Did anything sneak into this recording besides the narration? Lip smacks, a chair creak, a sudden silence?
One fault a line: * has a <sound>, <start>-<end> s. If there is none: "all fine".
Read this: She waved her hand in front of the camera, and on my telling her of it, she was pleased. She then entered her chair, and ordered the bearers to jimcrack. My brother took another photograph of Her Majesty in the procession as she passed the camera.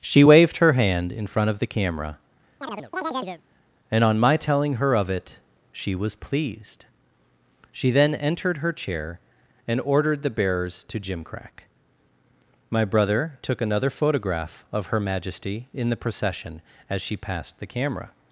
* has a chirp, 2.6-3.4 s